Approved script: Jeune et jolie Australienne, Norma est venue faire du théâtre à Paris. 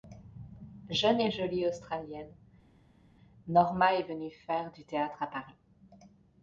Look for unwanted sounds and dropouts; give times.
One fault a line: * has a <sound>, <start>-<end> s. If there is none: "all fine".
all fine